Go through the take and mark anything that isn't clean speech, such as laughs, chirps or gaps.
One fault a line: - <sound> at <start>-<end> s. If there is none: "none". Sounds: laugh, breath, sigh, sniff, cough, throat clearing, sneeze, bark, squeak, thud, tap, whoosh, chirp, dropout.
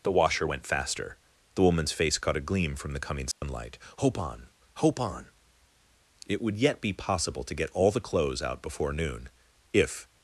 - dropout at 3.3-3.4 s